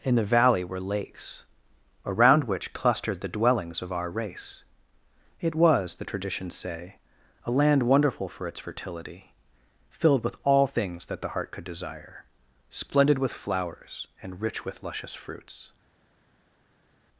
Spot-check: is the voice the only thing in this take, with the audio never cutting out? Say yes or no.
yes